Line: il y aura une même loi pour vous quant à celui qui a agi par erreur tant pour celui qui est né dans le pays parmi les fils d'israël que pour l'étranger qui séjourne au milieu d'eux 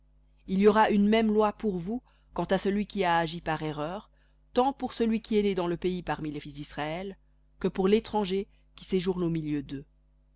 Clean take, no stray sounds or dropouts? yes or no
yes